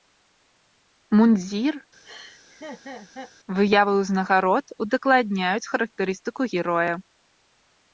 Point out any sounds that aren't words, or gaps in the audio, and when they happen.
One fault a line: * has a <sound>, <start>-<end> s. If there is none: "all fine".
* has a laugh, 2.0-3.3 s